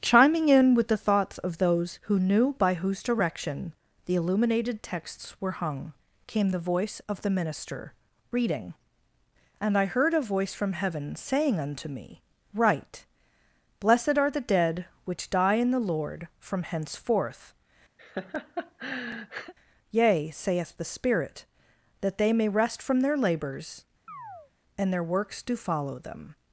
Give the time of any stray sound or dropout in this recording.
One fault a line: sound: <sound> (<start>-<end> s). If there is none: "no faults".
sound: laugh (18.0-19.5 s)
sound: chirp (24.1-24.5 s)